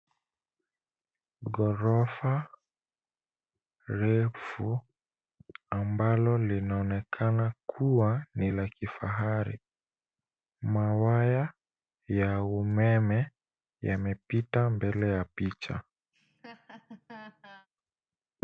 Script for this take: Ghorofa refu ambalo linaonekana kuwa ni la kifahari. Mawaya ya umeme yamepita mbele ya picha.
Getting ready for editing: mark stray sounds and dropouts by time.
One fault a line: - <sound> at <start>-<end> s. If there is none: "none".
- laugh at 16.1-17.7 s